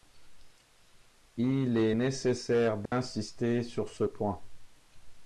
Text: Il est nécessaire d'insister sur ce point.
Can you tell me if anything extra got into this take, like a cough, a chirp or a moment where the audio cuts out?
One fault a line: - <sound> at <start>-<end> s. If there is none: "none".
- dropout at 2.9-2.9 s